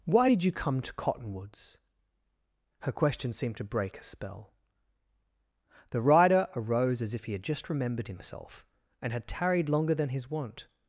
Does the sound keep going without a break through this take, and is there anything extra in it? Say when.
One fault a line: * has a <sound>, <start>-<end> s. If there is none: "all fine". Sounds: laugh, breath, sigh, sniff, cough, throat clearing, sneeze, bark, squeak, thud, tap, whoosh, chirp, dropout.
all fine